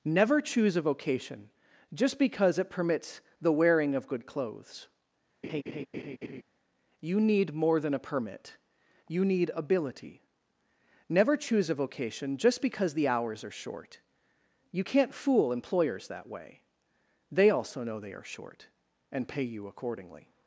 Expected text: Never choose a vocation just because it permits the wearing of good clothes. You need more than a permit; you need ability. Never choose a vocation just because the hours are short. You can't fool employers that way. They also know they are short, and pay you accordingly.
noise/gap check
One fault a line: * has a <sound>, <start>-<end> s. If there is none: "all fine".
* has a laugh, 5.4-6.4 s